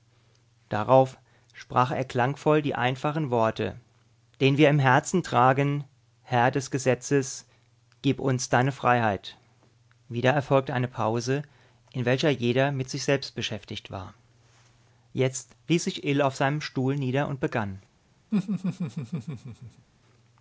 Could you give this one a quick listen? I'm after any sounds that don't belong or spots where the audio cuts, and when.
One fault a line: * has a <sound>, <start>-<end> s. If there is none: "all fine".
* has a laugh, 18.3-19.9 s